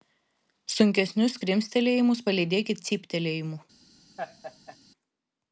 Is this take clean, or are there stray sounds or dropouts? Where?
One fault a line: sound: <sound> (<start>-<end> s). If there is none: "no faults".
sound: laugh (4.2-4.8 s)